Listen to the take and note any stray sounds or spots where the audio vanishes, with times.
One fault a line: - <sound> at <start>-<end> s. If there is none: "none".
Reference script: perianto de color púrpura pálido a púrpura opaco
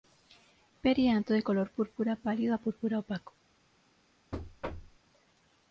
- thud at 4.3-5.0 s